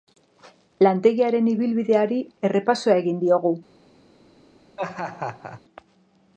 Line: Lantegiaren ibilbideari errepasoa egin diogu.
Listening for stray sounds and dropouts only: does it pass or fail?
fail